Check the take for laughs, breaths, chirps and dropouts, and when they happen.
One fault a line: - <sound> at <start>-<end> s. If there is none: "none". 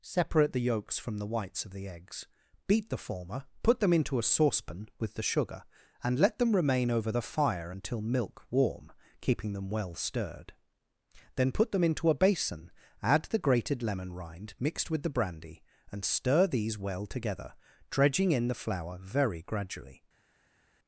none